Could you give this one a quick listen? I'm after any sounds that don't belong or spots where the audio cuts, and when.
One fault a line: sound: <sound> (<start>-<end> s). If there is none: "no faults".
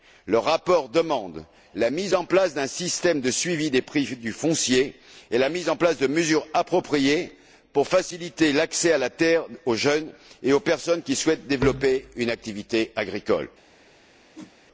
sound: whoosh (14.3-14.6 s)